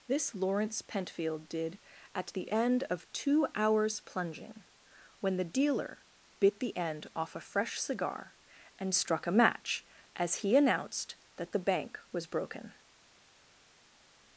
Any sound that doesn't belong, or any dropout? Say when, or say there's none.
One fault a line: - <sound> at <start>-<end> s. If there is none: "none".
none